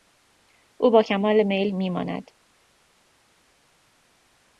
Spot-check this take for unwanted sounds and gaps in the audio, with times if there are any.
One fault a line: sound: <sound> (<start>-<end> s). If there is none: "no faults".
no faults